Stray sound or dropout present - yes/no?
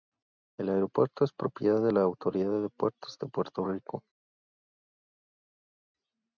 no